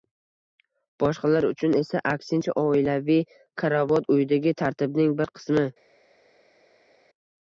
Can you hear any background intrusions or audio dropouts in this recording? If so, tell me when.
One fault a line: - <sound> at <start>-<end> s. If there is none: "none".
none